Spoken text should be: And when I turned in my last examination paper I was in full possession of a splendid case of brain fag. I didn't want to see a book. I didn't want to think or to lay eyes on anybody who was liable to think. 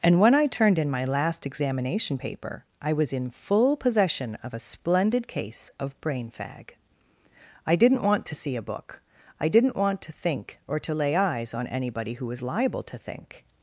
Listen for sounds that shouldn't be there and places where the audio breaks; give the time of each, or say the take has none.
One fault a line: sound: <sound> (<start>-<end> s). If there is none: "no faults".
no faults